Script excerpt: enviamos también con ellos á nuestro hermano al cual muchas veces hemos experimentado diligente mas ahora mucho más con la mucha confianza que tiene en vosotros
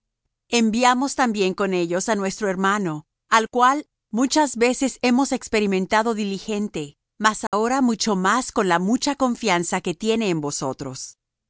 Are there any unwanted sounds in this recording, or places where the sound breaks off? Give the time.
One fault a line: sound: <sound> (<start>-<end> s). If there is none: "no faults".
sound: dropout (7.5-7.5 s)